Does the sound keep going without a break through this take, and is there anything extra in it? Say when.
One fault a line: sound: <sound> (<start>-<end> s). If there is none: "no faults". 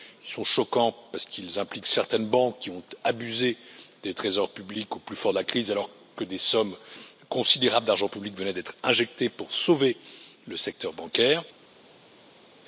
no faults